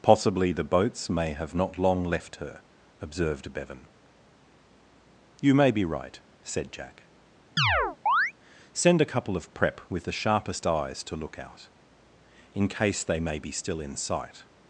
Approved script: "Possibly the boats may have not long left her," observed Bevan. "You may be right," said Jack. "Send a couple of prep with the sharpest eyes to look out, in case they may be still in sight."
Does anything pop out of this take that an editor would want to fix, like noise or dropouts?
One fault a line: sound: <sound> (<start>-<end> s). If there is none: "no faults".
sound: chirp (7.6-8.3 s)